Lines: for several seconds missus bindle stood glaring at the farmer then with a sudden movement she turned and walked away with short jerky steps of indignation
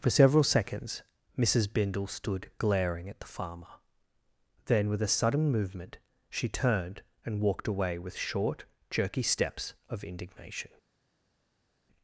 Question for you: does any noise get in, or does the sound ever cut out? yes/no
no